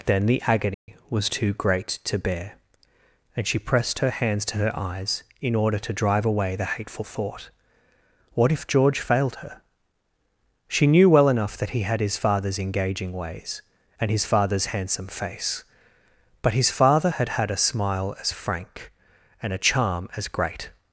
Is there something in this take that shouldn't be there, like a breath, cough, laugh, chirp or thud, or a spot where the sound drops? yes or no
yes